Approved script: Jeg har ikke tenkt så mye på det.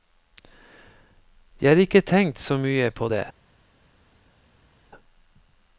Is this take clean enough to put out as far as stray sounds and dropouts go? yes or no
yes